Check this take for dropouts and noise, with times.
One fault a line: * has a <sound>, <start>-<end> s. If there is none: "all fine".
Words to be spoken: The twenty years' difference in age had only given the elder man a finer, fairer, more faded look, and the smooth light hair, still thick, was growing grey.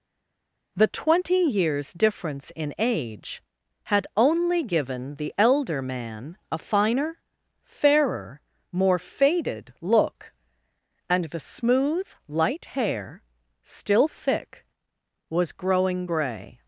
all fine